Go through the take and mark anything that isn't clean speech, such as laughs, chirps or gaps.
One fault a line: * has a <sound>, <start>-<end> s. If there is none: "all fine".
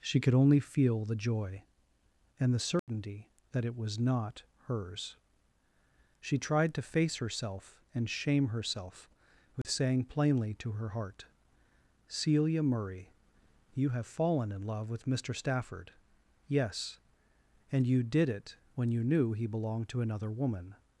* has a dropout, 2.8-2.9 s
* has a dropout, 9.6-9.6 s